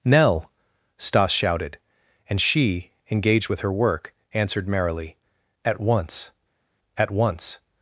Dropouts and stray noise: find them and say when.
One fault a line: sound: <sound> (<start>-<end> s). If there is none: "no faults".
no faults